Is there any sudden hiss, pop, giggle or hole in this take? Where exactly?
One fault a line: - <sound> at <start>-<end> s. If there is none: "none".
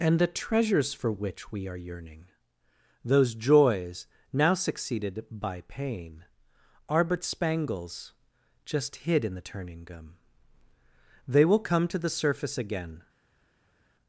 none